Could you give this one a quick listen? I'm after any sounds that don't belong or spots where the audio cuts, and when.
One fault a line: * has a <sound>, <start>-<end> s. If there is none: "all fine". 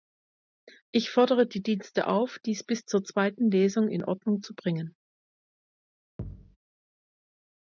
* has a thud, 6.2-6.6 s